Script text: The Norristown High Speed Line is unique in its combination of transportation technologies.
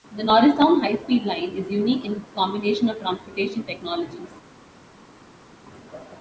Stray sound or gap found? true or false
false